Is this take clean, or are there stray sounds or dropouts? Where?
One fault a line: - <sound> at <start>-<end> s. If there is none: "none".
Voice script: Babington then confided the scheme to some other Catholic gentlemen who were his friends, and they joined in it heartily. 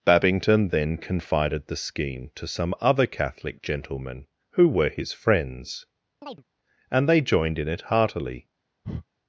- chirp at 6.2-6.4 s
- breath at 8.8-9.0 s